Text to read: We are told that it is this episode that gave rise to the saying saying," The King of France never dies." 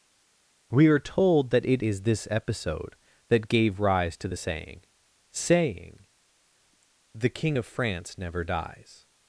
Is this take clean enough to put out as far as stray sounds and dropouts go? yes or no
yes